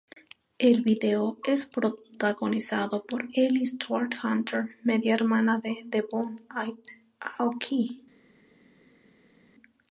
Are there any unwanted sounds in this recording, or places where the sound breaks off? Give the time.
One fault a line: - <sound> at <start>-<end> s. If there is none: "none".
none